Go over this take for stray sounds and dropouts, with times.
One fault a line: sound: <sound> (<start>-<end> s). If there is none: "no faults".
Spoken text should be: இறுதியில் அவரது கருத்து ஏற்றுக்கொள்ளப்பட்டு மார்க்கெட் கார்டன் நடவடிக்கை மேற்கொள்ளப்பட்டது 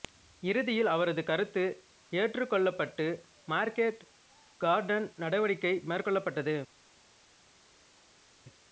no faults